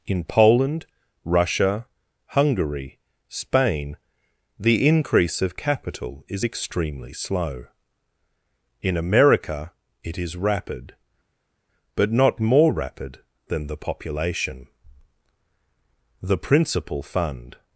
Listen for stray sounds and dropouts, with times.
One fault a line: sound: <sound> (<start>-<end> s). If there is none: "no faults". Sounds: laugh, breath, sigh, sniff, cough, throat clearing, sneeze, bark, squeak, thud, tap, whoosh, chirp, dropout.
no faults